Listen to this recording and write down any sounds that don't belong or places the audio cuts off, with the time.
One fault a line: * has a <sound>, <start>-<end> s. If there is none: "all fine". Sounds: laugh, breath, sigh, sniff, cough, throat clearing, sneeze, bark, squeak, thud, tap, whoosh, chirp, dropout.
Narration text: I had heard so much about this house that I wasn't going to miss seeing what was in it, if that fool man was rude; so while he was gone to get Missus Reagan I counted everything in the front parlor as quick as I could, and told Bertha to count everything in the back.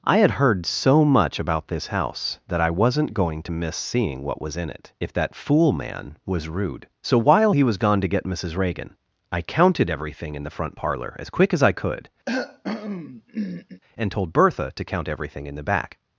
* has a cough, 12.3-13.8 s